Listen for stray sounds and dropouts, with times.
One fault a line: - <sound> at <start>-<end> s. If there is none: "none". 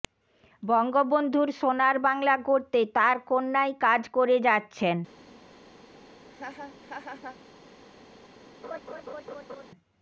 - laugh at 6.3-7.4 s
- laugh at 8.6-9.7 s